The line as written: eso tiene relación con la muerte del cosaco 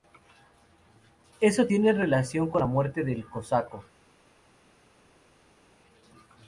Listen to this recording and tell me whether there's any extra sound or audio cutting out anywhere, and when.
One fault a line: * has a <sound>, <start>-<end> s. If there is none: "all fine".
all fine